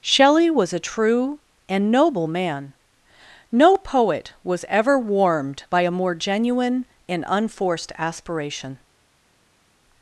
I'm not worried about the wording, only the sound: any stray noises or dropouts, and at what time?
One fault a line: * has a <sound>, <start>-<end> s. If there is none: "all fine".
all fine